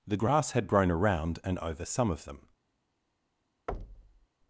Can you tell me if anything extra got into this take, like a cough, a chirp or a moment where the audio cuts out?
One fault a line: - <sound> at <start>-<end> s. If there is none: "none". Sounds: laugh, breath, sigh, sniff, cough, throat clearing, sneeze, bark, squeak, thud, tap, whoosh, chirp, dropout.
- thud at 3.7-4.3 s